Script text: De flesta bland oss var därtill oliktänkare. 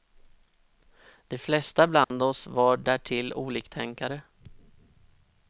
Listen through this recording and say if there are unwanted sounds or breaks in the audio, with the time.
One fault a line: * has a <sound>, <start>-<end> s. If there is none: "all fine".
* has a dropout, 2.0-2.1 s